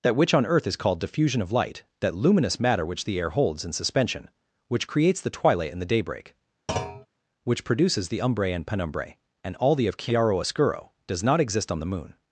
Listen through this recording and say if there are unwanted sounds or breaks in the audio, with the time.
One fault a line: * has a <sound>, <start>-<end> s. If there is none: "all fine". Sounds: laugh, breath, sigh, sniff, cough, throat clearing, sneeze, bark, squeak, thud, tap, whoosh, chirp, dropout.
* has a thud, 6.7-7.1 s